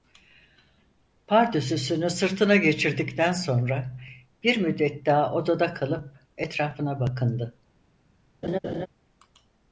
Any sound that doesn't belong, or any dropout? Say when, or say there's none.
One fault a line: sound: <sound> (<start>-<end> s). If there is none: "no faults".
sound: laugh (8.4-8.9 s)